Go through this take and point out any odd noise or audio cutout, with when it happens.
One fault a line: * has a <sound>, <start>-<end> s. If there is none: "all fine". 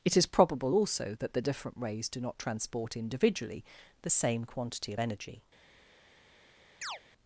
* has a chirp, 6.8-7.0 s